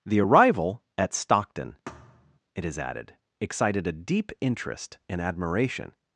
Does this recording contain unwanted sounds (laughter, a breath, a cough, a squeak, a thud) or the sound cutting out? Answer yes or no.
yes